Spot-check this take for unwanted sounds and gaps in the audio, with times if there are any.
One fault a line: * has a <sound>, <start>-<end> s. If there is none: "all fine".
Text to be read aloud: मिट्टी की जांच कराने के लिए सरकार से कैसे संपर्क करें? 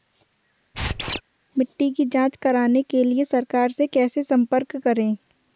* has a squeak, 0.7-1.2 s